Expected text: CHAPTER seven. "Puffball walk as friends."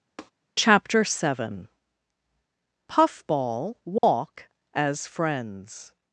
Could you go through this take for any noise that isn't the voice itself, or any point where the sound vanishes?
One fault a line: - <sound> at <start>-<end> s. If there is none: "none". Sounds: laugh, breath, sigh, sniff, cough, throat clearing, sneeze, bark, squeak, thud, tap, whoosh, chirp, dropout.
- tap at 0.2-0.3 s
- dropout at 4.0-4.0 s